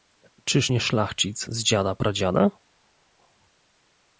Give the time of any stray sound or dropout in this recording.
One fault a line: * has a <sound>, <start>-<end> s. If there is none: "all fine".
all fine